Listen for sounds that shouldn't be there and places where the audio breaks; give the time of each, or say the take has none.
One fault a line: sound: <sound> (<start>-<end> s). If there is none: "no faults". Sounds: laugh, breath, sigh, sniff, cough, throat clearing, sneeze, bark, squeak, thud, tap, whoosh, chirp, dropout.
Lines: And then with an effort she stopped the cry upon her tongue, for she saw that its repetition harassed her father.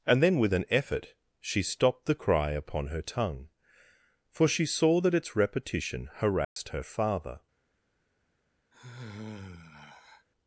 sound: dropout (6.4-6.6 s)
sound: sigh (8.7-10.3 s)